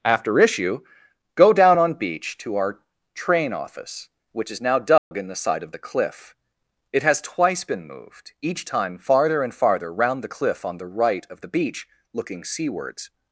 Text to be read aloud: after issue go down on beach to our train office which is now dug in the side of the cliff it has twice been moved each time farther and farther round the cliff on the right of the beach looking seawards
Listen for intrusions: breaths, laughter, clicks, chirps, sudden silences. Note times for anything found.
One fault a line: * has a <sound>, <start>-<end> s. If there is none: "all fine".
* has a dropout, 5.0-5.1 s